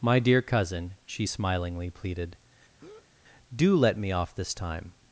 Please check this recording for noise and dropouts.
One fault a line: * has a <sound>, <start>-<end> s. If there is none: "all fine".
* has a breath, 2.8-3.1 s